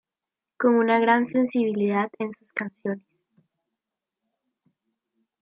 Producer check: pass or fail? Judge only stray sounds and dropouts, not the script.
pass